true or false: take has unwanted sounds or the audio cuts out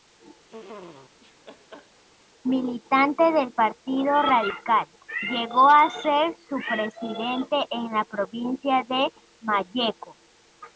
true